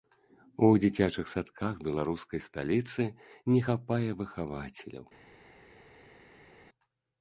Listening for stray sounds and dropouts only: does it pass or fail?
pass